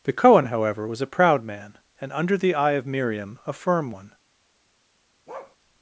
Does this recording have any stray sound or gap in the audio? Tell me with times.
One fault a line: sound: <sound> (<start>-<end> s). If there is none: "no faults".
sound: bark (5.3-5.6 s)